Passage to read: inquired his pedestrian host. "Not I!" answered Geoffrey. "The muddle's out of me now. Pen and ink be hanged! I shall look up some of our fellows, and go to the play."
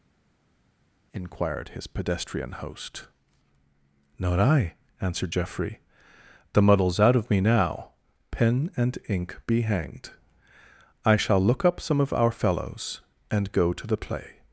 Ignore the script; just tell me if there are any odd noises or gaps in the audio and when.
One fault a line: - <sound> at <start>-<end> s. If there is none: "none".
none